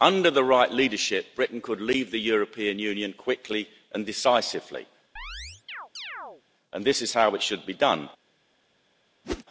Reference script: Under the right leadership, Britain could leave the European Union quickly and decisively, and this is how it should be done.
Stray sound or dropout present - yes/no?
yes